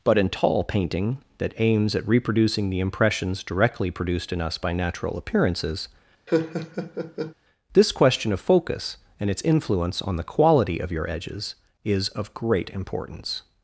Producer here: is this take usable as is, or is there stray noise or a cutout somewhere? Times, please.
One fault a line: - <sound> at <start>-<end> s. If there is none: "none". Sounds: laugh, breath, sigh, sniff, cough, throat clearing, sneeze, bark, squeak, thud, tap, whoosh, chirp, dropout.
- laugh at 6.3-7.3 s